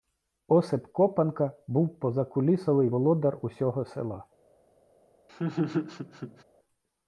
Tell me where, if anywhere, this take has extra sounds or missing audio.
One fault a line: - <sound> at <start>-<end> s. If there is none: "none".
- laugh at 5.3-6.4 s